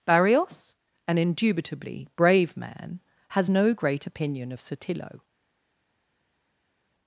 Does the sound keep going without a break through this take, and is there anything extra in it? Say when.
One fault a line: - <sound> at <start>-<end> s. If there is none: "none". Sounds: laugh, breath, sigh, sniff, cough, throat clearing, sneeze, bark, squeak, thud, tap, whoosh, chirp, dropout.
none